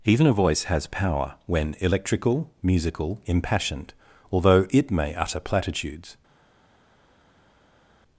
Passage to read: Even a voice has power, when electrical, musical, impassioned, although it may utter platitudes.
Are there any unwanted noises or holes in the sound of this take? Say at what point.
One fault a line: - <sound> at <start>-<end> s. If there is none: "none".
none